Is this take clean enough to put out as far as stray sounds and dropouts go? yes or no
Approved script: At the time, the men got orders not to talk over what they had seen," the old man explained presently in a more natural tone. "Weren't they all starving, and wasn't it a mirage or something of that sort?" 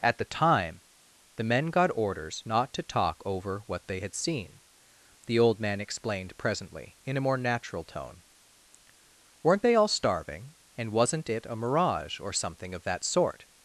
yes